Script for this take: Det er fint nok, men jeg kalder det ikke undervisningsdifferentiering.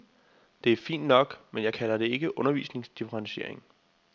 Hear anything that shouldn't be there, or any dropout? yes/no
no